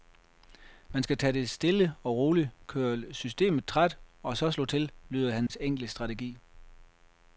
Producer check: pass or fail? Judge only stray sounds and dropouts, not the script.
fail